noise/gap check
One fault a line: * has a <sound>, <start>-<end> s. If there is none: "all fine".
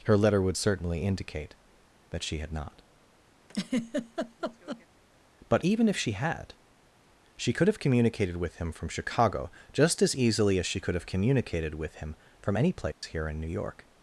* has a laugh, 3.5-4.9 s
* has a dropout, 12.9-13.0 s